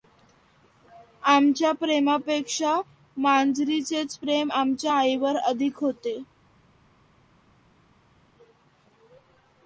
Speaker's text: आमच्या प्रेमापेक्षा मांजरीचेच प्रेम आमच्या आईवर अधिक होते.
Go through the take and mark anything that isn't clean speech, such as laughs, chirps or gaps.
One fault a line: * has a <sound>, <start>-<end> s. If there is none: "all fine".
all fine